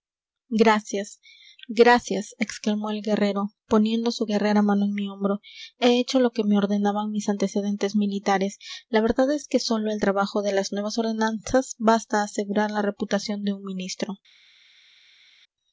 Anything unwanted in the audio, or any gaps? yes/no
no